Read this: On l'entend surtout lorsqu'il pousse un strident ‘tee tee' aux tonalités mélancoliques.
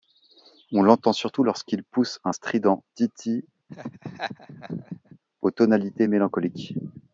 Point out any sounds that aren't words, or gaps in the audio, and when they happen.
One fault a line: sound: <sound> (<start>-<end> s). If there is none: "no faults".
sound: laugh (3.7-5.2 s)